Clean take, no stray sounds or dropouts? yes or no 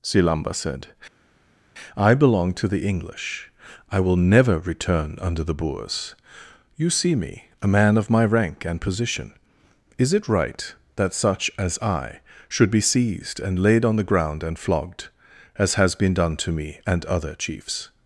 yes